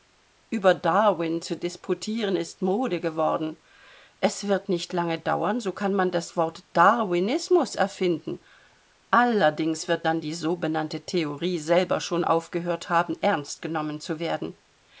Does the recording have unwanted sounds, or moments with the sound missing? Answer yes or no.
no